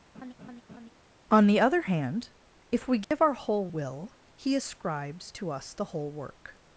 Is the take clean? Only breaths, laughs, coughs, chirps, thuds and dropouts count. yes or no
no